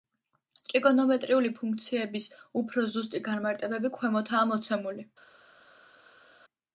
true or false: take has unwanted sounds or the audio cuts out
false